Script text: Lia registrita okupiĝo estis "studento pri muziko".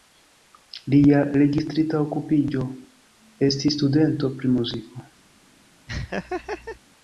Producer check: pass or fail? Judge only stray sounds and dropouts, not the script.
fail